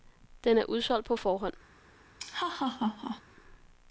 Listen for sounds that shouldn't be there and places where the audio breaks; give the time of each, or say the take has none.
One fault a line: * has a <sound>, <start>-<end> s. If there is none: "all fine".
* has a laugh, 2.2-3.2 s